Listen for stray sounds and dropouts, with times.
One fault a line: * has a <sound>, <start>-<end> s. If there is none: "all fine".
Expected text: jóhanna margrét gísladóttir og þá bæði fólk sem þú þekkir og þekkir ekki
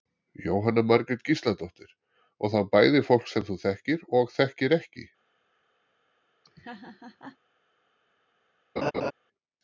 * has a laugh, 6.4-7.4 s
* has a laugh, 8.8-9.1 s